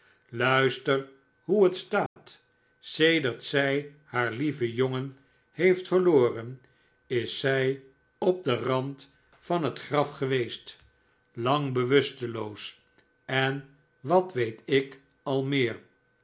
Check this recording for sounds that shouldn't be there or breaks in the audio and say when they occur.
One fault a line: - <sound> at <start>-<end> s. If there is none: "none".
- dropout at 2.1-2.2 s